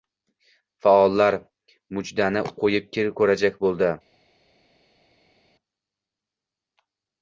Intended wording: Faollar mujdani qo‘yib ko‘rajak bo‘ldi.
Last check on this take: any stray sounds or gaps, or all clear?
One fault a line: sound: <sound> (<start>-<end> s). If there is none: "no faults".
no faults